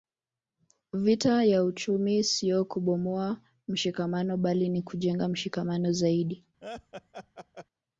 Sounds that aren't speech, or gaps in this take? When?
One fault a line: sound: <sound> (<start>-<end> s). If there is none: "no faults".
sound: laugh (6.6-7.7 s)